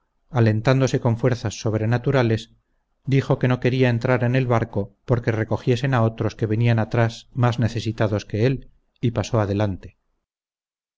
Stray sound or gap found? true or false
false